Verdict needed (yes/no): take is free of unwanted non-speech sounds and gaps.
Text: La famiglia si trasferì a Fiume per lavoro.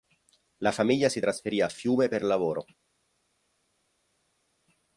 yes